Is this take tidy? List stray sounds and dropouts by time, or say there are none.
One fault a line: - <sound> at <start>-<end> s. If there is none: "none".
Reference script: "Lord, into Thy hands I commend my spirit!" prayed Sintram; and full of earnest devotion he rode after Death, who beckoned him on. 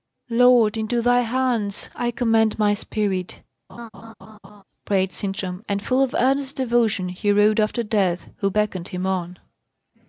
- laugh at 3.7-4.6 s